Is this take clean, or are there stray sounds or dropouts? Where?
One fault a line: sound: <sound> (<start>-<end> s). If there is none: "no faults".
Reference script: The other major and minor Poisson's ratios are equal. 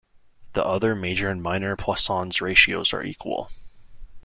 no faults